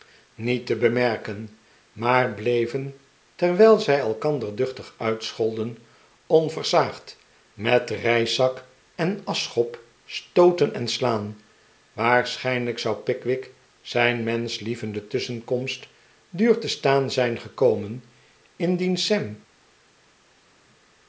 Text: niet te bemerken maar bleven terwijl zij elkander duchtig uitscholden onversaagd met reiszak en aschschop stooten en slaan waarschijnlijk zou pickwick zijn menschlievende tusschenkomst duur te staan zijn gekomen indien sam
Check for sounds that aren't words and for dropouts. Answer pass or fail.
pass